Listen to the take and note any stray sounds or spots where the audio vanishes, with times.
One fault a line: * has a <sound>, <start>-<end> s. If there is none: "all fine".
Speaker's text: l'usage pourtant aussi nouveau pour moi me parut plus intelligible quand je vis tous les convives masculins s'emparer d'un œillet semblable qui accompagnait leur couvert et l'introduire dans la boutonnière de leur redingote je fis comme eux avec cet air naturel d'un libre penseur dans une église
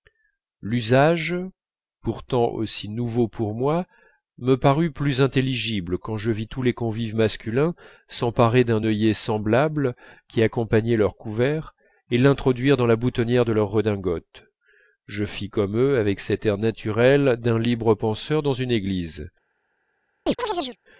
* has a chirp, 20.3-20.8 s